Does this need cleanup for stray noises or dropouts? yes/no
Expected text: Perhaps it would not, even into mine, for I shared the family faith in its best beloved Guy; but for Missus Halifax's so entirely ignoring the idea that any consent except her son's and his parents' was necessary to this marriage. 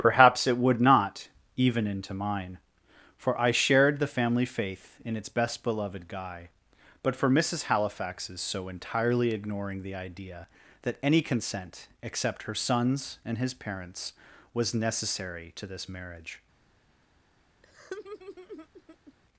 yes